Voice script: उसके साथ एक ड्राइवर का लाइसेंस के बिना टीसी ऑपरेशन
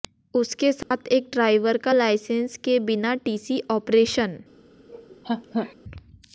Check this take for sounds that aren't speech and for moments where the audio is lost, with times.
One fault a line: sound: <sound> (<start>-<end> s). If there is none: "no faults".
sound: dropout (0.8-0.9 s)
sound: laugh (4.9-5.7 s)